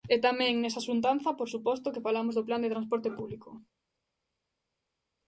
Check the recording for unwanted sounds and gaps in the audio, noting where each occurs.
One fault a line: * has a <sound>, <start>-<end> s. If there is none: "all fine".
all fine